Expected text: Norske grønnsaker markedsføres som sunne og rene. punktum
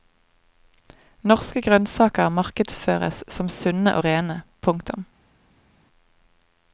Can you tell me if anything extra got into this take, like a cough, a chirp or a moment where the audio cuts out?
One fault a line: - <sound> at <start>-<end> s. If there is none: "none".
none